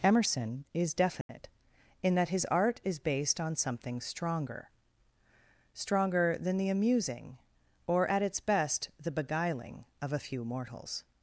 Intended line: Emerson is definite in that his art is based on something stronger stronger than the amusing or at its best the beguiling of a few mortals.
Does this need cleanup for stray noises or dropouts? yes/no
yes